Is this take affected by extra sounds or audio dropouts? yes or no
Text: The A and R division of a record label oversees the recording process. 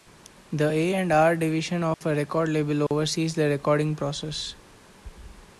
yes